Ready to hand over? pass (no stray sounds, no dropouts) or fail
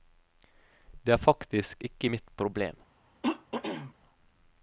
fail